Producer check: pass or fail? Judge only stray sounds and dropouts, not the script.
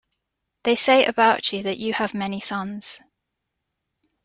pass